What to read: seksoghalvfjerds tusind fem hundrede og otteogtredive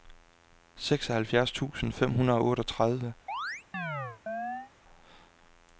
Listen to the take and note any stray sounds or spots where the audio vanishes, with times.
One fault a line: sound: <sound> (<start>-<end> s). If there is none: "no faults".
sound: chirp (3.3-4.7 s)